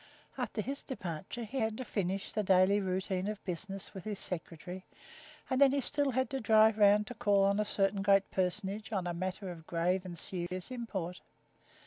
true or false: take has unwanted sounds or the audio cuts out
true